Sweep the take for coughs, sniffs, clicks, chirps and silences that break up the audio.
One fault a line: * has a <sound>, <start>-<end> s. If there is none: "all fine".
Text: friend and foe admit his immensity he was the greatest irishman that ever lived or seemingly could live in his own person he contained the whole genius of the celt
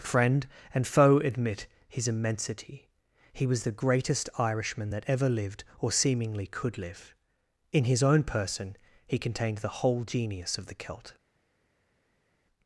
all fine